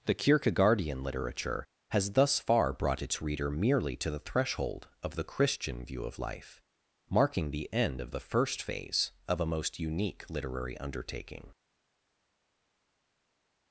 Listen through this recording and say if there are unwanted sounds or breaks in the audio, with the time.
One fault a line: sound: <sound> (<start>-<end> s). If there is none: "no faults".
no faults